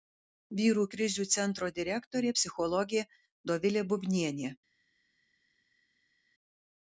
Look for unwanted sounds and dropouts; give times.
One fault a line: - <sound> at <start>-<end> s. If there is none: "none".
none